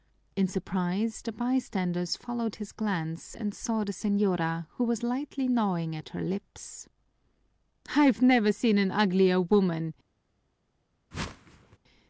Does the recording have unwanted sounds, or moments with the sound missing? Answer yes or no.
yes